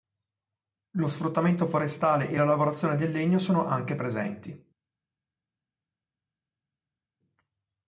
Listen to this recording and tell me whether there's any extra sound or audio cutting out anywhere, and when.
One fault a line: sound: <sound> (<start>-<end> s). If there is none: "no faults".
no faults